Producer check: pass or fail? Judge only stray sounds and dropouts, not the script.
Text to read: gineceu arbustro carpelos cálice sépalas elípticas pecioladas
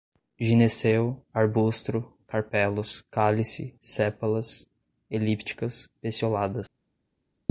pass